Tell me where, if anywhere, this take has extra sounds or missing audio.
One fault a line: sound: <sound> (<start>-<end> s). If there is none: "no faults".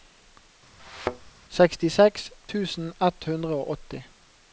sound: thud (0.8-1.3 s)